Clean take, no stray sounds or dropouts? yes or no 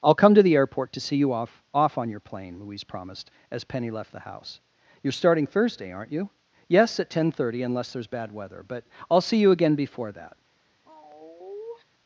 no